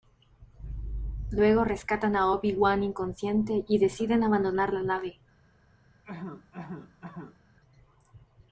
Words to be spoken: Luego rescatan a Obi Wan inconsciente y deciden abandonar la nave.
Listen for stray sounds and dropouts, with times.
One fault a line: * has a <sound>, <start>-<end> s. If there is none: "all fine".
* has a cough, 6.0-7.4 s